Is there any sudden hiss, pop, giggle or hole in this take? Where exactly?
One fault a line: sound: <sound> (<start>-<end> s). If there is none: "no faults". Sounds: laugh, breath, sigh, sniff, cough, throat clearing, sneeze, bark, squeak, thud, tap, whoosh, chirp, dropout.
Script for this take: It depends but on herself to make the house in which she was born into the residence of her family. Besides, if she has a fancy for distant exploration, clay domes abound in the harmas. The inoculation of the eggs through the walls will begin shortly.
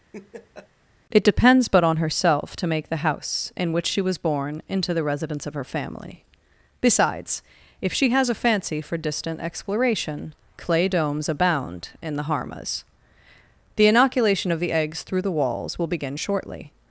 sound: laugh (0.1-0.7 s)